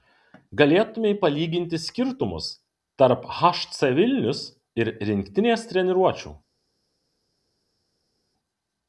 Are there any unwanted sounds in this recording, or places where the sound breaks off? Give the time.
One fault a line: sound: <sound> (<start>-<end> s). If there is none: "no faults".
no faults